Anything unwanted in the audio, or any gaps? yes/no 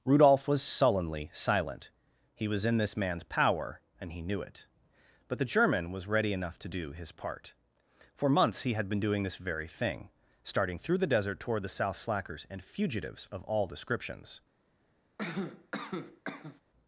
yes